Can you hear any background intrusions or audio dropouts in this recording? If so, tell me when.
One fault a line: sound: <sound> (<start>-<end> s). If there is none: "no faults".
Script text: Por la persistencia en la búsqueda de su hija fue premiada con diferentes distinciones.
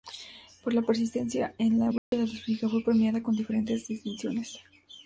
sound: dropout (2.0-2.1 s)